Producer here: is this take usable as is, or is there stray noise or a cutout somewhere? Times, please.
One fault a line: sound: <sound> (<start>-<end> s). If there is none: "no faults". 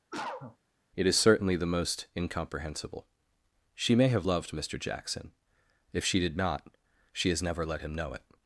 sound: cough (0.1-0.6 s)